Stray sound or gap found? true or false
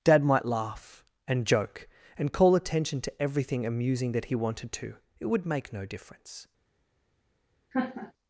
true